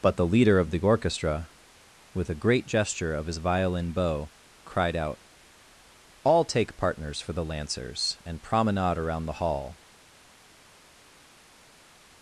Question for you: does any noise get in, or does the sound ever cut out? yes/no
no